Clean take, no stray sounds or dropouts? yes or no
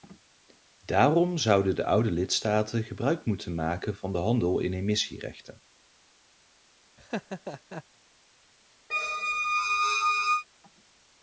no